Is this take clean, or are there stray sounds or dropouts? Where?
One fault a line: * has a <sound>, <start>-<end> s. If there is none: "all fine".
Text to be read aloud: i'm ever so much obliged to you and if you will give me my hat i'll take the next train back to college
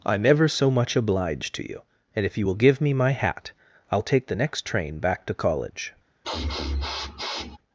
* has a sniff, 6.2-7.6 s